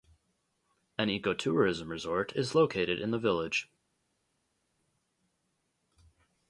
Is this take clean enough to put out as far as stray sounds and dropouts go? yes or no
yes